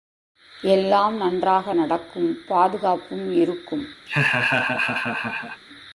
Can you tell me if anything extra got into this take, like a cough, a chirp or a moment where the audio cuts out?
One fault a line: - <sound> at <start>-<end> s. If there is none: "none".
- laugh at 4.1-5.6 s